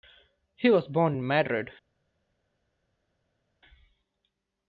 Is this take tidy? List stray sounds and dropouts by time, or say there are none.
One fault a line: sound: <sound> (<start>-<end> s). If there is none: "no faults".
no faults